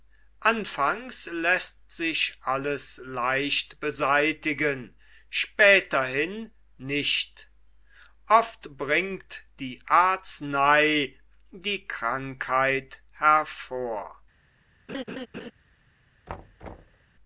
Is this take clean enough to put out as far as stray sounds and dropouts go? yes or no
no